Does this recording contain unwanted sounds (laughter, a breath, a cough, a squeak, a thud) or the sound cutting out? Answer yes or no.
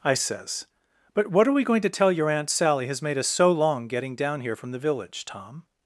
no